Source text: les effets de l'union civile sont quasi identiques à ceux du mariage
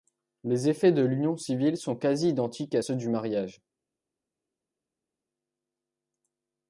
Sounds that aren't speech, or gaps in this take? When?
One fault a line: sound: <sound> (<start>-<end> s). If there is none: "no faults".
no faults